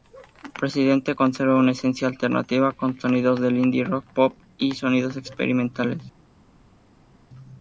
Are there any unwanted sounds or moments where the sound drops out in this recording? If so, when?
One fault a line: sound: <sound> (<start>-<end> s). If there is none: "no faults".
no faults